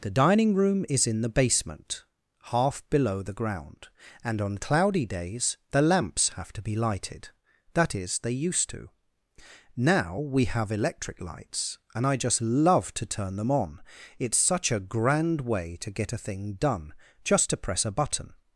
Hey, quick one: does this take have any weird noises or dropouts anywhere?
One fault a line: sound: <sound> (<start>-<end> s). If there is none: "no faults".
no faults